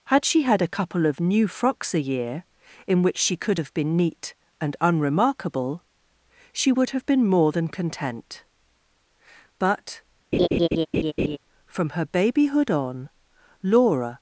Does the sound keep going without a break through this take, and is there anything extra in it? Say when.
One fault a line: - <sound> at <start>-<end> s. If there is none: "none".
- laugh at 10.3-11.4 s